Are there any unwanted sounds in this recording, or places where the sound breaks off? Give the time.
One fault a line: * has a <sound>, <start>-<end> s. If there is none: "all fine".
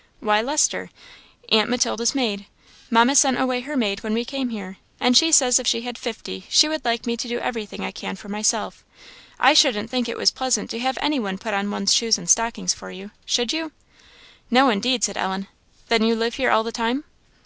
all fine